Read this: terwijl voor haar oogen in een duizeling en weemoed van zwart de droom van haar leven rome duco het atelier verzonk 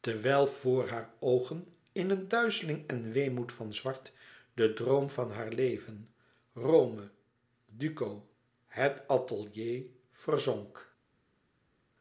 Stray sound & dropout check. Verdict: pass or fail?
pass